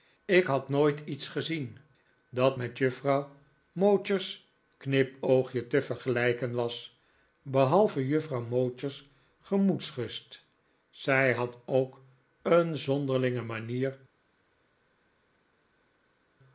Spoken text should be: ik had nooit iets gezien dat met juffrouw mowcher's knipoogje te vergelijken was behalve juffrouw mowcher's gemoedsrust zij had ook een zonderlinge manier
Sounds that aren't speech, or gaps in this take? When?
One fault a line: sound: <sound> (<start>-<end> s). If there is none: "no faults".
no faults